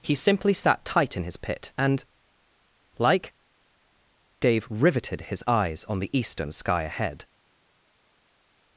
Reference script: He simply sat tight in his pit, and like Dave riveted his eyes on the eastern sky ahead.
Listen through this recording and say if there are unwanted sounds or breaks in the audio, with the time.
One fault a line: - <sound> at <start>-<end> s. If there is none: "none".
none